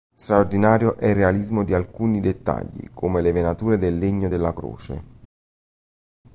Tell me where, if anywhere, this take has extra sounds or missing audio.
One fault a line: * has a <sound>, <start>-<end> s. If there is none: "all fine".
all fine